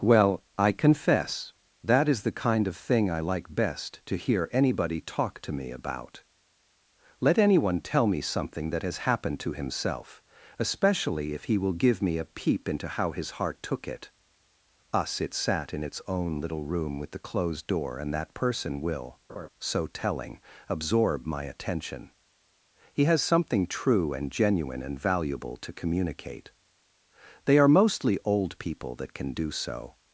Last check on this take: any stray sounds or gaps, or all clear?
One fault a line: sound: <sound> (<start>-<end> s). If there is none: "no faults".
sound: laugh (19.3-19.5 s)